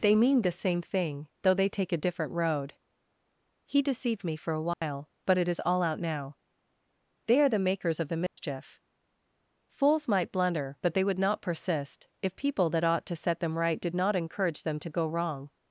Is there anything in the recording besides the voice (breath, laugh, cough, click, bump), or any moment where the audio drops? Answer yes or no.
yes